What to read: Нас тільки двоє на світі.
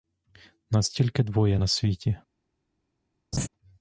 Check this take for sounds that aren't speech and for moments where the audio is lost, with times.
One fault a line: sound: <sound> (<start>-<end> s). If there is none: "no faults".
sound: laugh (3.3-3.5 s)